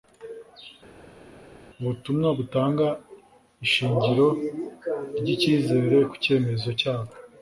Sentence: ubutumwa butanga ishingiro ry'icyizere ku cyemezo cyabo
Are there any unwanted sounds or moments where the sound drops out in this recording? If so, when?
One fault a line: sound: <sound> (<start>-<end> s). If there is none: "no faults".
no faults